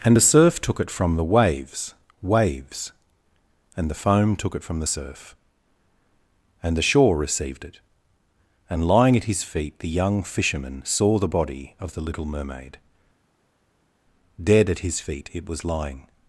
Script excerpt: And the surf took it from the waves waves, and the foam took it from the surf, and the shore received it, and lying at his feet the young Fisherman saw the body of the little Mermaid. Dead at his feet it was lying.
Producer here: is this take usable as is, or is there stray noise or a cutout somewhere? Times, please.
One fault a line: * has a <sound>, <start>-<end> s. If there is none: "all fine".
all fine